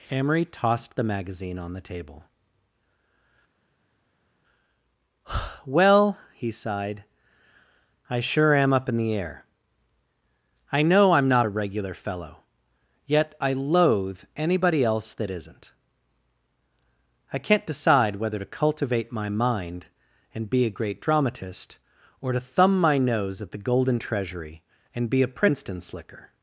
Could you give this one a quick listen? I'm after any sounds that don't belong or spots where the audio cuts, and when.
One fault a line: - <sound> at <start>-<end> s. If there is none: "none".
none